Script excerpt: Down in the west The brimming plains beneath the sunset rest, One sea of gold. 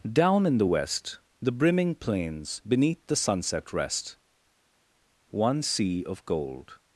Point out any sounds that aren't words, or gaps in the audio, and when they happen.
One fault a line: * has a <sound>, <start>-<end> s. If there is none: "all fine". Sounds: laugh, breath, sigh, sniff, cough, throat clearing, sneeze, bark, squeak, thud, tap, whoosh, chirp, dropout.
all fine